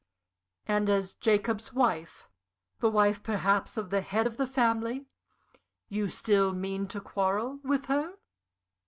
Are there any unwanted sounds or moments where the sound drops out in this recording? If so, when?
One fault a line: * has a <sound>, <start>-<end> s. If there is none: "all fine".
all fine